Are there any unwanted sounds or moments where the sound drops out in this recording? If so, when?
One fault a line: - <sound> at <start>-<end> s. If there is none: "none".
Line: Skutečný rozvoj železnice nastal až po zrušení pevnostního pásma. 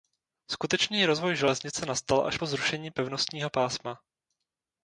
none